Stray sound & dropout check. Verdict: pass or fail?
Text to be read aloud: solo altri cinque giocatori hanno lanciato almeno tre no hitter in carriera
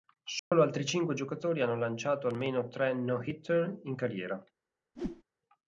fail